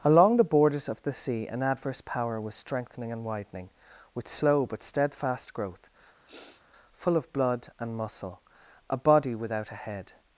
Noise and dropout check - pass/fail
fail